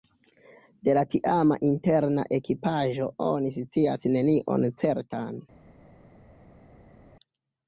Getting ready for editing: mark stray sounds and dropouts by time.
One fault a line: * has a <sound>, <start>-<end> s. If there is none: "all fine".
all fine